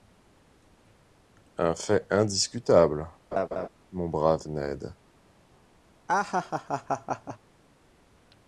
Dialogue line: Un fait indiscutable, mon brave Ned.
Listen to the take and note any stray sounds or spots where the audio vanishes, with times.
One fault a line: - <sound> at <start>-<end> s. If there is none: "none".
- laugh at 3.3-3.7 s
- laugh at 6.1-7.4 s